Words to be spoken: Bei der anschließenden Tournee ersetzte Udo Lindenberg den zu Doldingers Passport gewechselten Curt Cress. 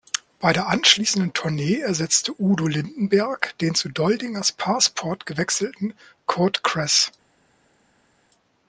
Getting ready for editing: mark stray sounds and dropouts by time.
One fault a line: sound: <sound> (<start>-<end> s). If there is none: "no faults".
no faults